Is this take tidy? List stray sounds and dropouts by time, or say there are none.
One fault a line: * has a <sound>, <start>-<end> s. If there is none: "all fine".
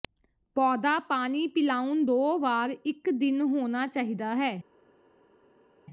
all fine